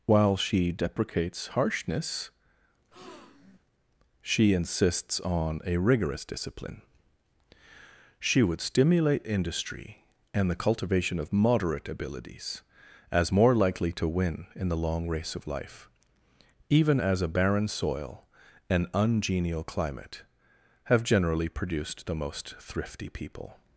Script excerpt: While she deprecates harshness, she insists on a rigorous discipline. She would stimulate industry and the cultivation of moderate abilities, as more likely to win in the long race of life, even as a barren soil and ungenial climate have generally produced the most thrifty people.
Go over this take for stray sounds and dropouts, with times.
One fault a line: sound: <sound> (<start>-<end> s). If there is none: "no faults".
sound: breath (2.9-3.6 s)